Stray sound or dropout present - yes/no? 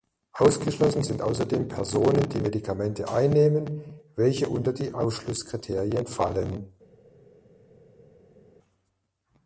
no